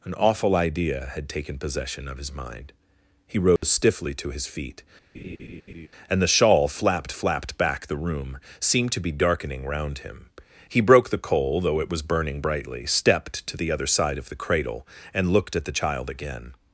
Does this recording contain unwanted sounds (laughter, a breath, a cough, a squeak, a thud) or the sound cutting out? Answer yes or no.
yes